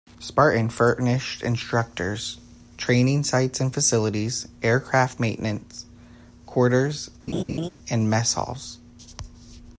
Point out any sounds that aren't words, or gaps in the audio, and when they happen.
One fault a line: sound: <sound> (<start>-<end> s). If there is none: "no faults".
sound: laugh (7.3-7.7 s)